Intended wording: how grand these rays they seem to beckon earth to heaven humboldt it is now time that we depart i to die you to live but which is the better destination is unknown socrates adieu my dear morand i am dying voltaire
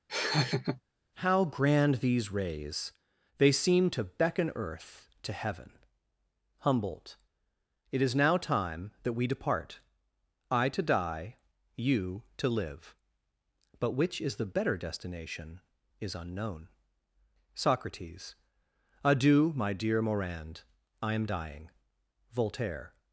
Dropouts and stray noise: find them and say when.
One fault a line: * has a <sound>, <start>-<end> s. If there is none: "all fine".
* has a laugh, 0.1-0.8 s